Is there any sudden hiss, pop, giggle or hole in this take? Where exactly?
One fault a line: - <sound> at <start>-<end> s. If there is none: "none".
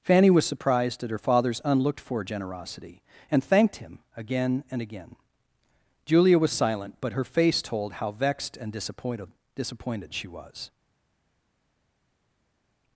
none